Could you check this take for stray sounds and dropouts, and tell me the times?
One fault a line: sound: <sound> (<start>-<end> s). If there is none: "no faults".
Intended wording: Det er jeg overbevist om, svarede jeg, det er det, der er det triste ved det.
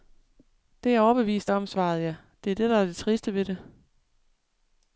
no faults